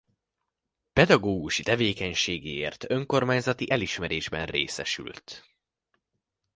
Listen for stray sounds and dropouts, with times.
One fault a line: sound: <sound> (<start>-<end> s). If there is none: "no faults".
no faults